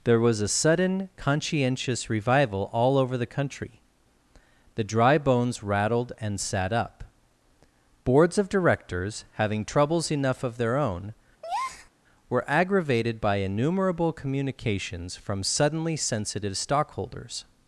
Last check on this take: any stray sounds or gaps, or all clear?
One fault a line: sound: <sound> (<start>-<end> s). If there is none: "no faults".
sound: breath (11.4-11.9 s)